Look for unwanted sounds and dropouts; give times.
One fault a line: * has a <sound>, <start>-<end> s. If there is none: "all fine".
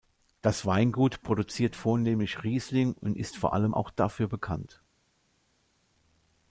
all fine